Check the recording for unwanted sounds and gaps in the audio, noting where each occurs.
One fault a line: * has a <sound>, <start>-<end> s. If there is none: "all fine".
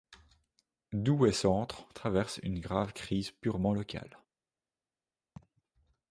* has a laugh, 5.4-5.6 s